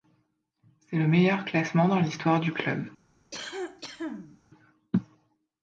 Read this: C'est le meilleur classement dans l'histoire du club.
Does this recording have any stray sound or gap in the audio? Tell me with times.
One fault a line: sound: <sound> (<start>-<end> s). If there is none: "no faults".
sound: cough (3.3-4.4 s)